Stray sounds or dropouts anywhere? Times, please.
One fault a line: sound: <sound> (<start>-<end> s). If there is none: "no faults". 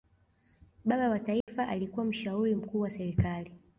sound: dropout (1.4-1.5 s)